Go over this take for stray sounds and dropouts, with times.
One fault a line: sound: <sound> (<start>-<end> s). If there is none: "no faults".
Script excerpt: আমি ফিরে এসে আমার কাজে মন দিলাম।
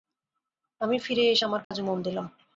sound: dropout (1.6-1.7 s)